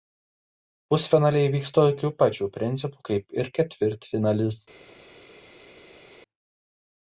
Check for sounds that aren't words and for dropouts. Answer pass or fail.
pass